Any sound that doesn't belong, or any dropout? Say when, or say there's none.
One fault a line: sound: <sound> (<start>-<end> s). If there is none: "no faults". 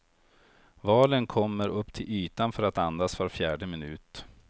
no faults